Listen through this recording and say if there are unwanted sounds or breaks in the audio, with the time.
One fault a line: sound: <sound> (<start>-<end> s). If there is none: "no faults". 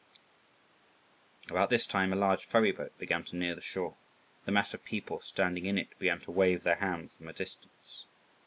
no faults